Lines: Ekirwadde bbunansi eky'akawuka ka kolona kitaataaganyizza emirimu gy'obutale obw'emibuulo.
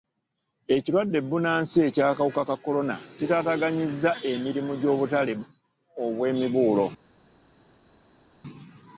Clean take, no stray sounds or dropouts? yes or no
yes